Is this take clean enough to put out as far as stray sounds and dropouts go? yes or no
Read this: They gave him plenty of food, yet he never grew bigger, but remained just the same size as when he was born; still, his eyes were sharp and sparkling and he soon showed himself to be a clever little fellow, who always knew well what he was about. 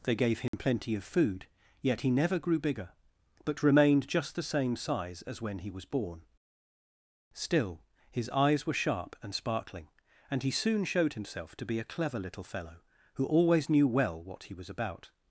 no